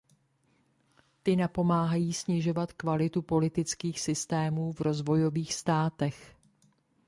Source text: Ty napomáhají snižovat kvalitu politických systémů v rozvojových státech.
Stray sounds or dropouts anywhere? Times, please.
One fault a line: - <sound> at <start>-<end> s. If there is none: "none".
none